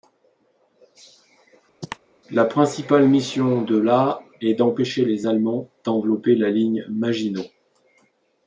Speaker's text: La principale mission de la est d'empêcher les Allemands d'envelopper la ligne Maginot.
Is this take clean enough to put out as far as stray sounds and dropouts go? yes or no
no